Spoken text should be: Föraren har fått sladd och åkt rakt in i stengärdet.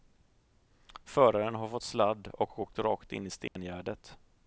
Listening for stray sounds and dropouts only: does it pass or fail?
fail